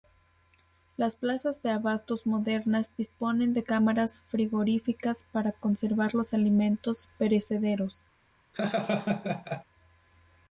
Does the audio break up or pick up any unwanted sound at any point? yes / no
yes